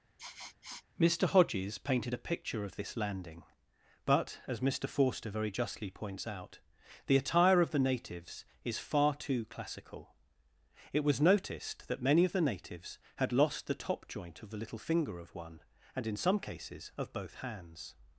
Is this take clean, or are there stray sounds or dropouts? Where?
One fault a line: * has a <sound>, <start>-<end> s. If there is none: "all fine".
* has a sniff, 0.2-0.8 s